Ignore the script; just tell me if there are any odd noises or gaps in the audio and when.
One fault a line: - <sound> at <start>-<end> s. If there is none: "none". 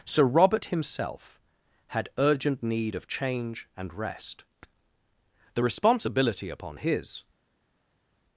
none